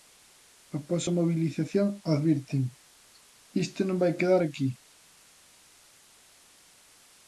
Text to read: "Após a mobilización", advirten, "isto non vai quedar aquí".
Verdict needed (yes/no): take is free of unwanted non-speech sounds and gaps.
yes